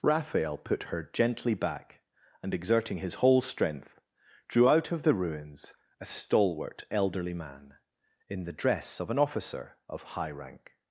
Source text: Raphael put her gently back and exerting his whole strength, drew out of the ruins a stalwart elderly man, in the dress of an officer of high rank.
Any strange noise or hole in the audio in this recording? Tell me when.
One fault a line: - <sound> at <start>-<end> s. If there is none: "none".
none